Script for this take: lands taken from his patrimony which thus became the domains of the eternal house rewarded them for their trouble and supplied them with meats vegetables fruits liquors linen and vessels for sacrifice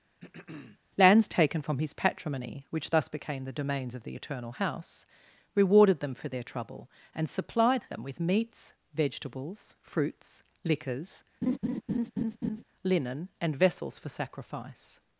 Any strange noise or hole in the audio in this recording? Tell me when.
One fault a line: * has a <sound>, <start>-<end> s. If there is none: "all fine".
* has a throat clearing, 0.2-0.8 s
* has a laugh, 11.4-12.6 s